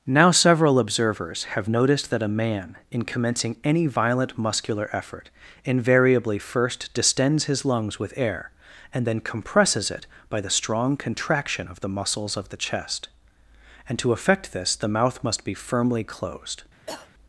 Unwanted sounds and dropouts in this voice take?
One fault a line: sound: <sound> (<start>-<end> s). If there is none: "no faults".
sound: cough (16.9-17.1 s)